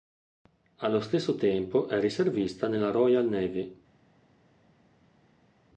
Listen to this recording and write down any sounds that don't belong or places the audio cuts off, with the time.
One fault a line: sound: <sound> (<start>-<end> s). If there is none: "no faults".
no faults